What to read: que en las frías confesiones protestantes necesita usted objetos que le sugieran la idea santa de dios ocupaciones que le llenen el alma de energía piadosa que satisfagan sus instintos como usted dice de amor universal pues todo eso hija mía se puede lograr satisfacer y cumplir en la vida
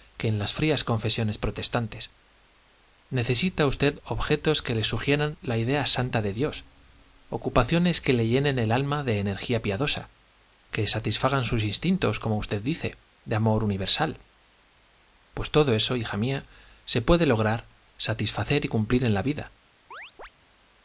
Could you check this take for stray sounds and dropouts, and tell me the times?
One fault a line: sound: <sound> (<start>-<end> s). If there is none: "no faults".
sound: chirp (19.9-20.3 s)